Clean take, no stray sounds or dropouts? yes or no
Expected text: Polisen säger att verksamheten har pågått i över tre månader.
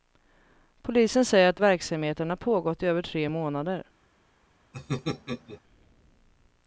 no